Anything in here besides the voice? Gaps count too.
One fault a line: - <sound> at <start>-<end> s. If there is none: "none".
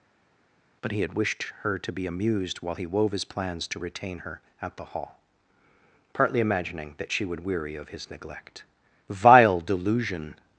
none